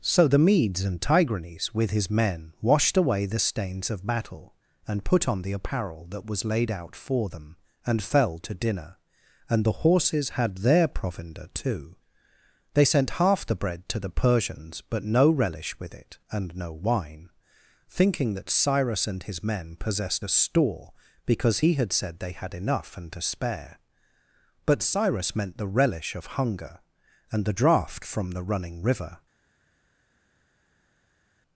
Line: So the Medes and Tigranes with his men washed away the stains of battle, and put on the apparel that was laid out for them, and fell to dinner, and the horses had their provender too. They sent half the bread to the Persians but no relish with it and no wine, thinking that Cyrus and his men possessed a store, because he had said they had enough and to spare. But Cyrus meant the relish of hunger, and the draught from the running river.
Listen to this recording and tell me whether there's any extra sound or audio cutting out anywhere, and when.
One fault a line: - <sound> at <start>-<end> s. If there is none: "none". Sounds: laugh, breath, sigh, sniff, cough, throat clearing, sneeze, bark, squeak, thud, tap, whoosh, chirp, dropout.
none